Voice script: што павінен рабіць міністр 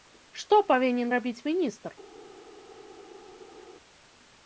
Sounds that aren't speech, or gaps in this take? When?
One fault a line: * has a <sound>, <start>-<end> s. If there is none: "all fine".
all fine